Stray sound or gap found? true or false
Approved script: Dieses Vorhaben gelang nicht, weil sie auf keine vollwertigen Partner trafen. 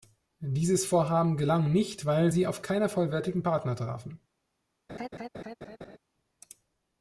true